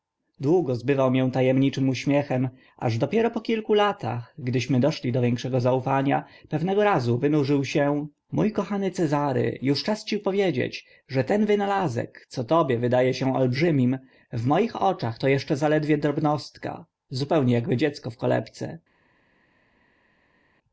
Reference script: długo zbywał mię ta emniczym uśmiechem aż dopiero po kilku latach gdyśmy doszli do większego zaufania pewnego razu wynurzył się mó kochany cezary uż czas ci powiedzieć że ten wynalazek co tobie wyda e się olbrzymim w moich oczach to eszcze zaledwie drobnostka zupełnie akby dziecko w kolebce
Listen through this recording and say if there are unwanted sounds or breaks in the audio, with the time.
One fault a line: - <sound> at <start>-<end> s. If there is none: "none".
none